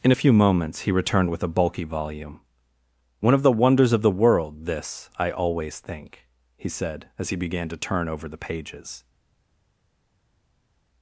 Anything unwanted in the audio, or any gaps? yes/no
no